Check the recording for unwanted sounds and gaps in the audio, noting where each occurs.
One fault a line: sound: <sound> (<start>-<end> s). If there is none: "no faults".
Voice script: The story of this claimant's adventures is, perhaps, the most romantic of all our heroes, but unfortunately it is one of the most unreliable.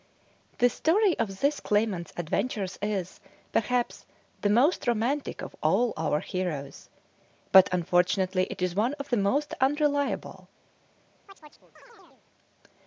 sound: chirp (11.3-12.2 s)